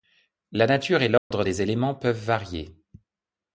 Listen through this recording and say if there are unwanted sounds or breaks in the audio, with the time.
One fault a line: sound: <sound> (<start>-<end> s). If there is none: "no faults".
sound: dropout (1.2-1.3 s)